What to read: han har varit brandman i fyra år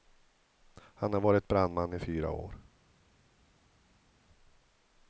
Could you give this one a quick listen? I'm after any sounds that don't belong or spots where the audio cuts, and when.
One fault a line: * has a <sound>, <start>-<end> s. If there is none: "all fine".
all fine